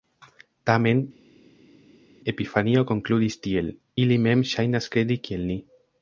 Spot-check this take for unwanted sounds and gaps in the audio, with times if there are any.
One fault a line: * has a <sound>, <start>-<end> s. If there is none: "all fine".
all fine